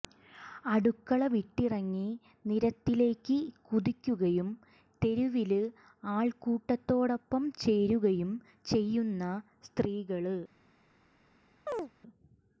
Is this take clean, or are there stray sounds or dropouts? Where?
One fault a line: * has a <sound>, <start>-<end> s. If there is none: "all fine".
* has a chirp, 11.7-11.9 s